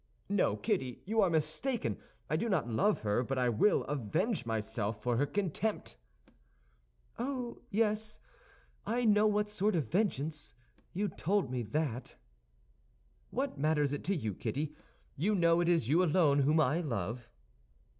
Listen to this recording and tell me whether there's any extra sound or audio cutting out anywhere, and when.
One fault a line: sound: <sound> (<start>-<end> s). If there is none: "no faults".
no faults